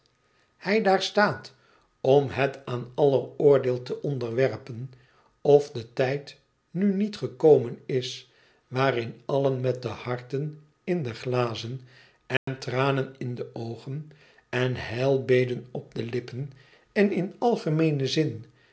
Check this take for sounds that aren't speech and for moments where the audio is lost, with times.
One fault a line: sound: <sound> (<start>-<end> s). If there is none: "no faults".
sound: dropout (12.4-12.5 s)